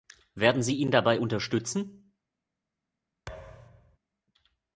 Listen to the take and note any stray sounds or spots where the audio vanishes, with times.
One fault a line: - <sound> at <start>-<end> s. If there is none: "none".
- thud at 3.3-4.0 s